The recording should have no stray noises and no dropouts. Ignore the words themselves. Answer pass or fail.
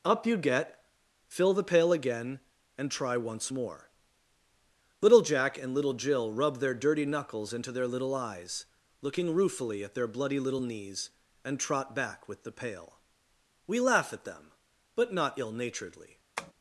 fail